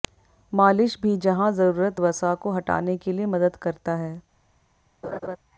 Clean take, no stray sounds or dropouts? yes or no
no